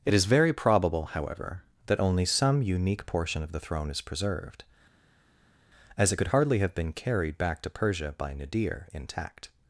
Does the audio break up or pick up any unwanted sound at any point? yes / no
no